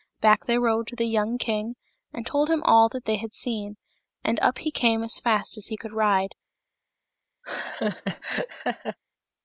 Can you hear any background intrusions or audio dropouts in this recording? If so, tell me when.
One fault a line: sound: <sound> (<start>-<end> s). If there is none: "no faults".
sound: laugh (7.4-9.0 s)